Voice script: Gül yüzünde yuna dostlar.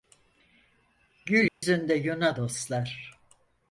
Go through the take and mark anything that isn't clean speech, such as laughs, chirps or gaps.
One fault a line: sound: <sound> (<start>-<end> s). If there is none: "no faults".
sound: dropout (1.5-1.6 s)